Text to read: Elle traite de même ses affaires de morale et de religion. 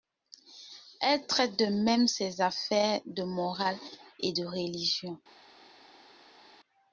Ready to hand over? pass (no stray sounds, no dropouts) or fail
pass